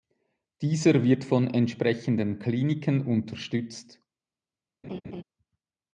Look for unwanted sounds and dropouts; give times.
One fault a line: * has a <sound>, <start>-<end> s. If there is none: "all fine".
* has a laugh, 4.8-5.2 s